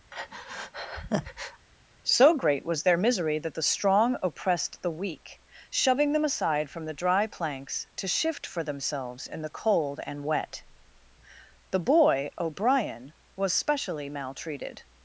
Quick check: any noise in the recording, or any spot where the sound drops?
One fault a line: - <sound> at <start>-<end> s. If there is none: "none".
- breath at 0.1-1.7 s